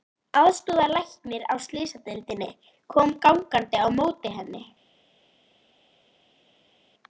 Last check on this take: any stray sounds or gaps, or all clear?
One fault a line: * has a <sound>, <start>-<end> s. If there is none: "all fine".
all fine